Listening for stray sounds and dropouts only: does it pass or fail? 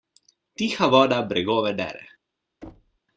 fail